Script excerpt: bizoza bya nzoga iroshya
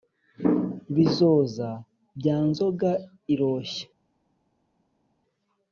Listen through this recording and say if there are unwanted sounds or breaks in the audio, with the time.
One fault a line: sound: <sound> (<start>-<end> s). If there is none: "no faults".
no faults